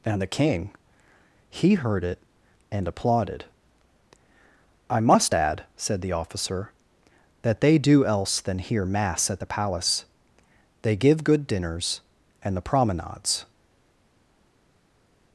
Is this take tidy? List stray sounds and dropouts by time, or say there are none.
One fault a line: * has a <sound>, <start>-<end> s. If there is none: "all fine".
all fine